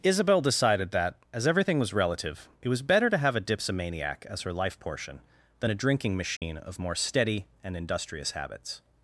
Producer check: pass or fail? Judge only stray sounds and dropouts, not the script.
fail